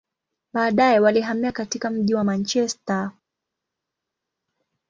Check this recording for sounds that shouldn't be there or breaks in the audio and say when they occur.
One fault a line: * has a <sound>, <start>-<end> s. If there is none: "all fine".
all fine